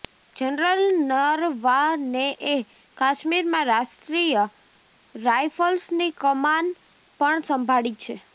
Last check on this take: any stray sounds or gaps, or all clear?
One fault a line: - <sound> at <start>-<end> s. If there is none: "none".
none